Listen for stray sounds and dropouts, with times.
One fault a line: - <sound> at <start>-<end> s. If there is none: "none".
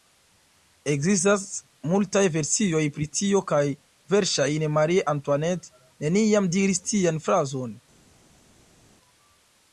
none